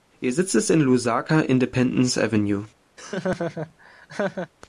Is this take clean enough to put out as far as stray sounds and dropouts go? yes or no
no